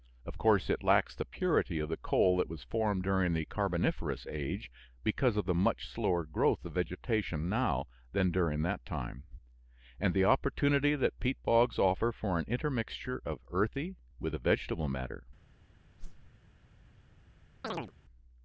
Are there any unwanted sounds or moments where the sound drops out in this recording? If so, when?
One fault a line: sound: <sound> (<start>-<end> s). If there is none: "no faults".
sound: whoosh (16.0-16.3 s)
sound: chirp (17.6-17.9 s)